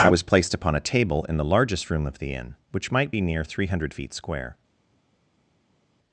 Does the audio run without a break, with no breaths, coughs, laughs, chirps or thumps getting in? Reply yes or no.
yes